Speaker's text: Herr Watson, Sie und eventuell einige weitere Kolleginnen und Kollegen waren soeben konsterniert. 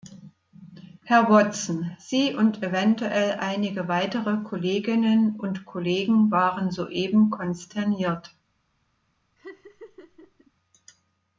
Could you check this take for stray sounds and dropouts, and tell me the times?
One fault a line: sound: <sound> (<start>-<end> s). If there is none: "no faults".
sound: laugh (9.4-10.5 s)